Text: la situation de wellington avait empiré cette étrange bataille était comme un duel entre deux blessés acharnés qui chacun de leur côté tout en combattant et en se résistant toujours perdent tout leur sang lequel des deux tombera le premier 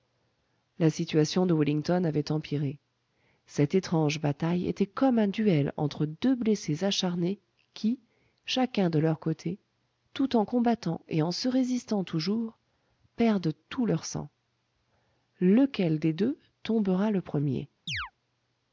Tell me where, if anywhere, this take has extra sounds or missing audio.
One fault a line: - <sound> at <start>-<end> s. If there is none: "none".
- chirp at 17.9-18.1 s